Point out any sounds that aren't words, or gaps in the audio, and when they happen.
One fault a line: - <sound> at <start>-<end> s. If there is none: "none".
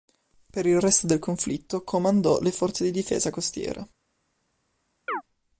- chirp at 5.1-5.2 s